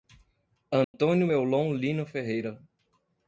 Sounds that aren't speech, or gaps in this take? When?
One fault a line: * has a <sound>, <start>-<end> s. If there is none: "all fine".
* has a dropout, 0.8-0.9 s